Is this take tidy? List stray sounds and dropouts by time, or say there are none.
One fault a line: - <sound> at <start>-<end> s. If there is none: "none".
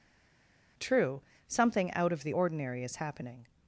none